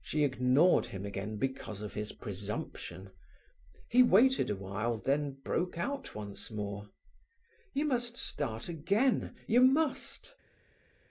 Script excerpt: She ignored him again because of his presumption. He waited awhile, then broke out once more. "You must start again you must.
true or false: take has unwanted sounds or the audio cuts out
false